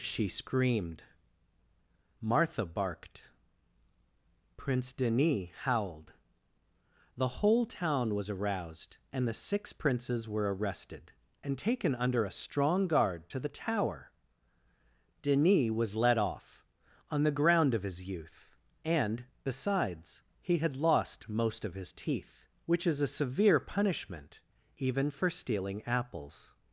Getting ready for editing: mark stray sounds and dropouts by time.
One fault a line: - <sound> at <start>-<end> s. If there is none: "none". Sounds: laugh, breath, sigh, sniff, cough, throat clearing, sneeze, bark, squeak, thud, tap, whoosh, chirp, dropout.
none